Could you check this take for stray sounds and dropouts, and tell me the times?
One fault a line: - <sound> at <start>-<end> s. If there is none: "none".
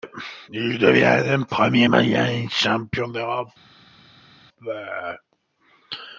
none